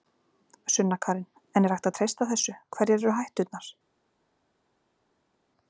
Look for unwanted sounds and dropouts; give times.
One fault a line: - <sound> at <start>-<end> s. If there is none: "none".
none